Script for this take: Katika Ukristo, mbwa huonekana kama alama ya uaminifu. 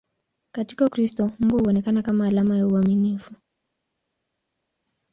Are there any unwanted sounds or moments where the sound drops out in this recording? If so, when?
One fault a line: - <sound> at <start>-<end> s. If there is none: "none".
none